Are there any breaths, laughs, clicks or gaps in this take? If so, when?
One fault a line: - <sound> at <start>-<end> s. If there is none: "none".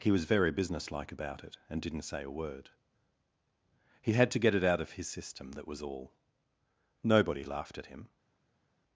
none